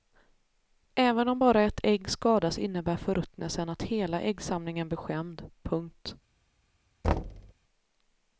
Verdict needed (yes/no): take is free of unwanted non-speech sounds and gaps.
no